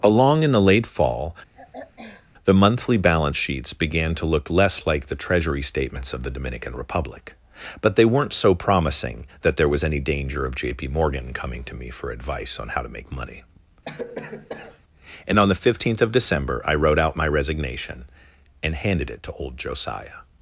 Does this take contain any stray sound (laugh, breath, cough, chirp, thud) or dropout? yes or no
yes